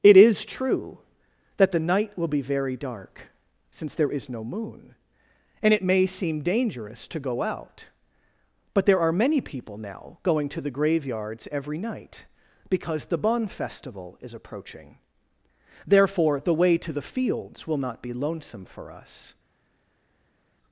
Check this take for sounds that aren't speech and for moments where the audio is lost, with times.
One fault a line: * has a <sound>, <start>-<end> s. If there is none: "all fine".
all fine